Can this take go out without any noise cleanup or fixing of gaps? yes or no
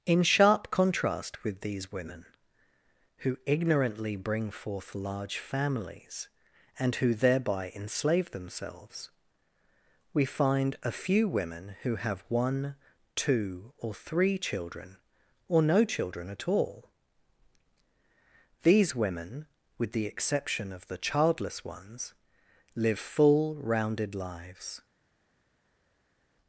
yes